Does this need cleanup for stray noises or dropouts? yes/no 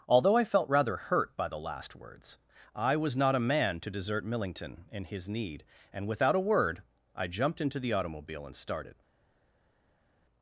no